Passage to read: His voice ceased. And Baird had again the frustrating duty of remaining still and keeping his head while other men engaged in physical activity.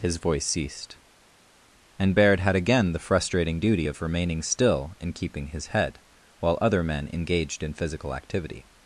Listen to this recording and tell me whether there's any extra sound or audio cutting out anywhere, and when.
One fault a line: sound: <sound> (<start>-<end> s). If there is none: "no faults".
no faults